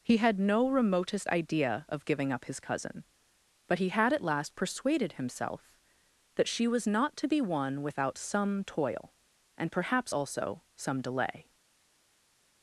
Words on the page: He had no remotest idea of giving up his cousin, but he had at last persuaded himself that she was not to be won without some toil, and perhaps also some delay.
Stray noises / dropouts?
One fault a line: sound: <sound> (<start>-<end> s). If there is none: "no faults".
no faults